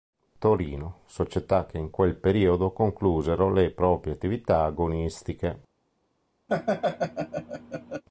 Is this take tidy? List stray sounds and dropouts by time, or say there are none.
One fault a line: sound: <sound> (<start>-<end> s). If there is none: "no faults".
sound: laugh (6.5-8.0 s)